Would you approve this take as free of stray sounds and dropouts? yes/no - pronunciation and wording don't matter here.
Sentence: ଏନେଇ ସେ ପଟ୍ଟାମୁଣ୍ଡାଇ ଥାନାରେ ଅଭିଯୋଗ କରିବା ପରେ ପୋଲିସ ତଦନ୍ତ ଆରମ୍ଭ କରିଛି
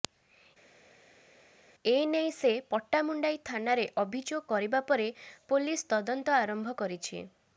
yes